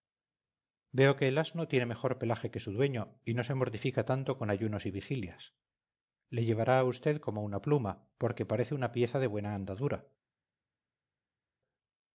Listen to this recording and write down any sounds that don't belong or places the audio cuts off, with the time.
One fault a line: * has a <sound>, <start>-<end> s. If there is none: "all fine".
all fine